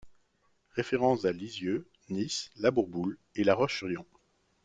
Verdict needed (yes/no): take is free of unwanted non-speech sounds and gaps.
yes